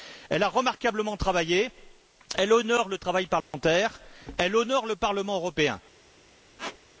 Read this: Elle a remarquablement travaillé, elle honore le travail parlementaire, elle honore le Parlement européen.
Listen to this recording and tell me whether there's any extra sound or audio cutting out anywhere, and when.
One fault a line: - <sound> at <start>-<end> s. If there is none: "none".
- dropout at 3.4-3.5 s
- squeak at 6.6-6.8 s